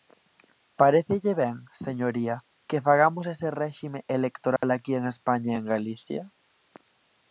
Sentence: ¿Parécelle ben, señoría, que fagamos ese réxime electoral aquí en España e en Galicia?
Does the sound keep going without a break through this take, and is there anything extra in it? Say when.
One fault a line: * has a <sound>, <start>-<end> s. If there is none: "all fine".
* has a dropout, 4.6-4.6 s